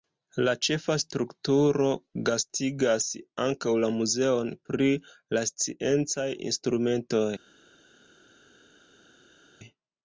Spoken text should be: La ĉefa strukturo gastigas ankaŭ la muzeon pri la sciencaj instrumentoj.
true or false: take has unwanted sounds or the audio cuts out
false